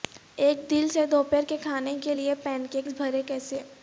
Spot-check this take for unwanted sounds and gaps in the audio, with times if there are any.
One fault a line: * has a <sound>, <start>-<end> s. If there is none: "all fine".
all fine